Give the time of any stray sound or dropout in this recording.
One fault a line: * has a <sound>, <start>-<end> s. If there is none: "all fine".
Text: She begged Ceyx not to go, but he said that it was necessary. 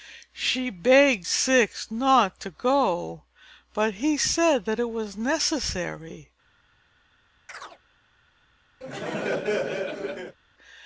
* has a chirp, 7.5-7.8 s
* has a laugh, 8.8-10.4 s